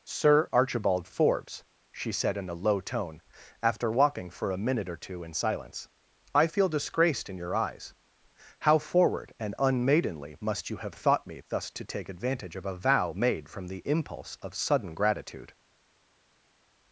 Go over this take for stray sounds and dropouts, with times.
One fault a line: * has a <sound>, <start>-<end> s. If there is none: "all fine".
all fine